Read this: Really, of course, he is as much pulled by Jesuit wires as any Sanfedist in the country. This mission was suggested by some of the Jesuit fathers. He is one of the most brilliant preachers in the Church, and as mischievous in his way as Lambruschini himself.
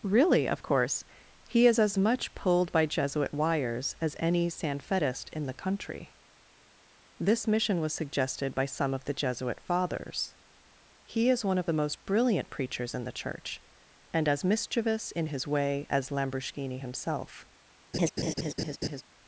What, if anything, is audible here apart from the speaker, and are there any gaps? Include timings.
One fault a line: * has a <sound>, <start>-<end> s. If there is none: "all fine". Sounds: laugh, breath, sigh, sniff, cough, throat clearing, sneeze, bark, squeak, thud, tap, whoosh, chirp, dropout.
* has a laugh, 17.9-19.0 s